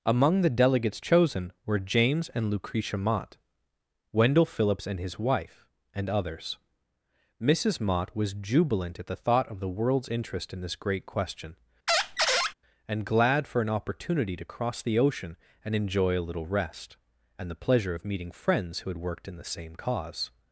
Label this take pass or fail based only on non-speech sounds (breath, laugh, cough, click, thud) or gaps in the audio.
fail